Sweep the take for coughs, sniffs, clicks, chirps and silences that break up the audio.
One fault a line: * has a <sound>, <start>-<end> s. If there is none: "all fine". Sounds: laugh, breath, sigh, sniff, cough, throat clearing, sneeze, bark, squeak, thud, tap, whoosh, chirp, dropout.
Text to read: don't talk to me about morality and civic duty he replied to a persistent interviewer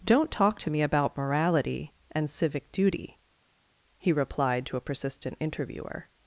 all fine